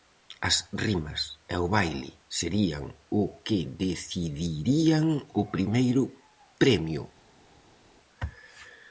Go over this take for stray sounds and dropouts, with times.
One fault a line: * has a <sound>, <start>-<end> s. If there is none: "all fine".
all fine